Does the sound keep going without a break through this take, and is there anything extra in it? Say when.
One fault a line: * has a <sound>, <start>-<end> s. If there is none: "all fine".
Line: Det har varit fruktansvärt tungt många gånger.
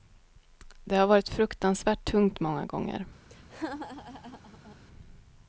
* has a laugh, 3.3-4.8 s